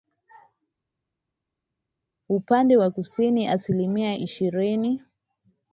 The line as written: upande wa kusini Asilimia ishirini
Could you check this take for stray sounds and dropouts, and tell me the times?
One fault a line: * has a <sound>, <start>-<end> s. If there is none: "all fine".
all fine